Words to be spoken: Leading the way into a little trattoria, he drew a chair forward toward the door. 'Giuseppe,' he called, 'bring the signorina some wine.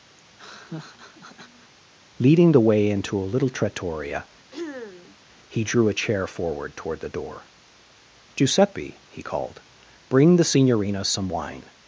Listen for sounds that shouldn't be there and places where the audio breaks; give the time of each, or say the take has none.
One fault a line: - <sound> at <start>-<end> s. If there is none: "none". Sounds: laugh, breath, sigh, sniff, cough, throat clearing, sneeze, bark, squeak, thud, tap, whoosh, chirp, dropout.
- laugh at 0.2-1.7 s
- throat clearing at 4.5-5.2 s